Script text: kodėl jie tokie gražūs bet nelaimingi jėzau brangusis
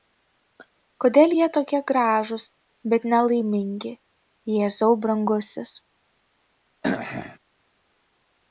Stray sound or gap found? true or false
true